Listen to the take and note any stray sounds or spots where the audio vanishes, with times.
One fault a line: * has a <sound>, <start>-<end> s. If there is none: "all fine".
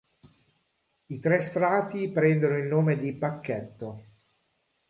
all fine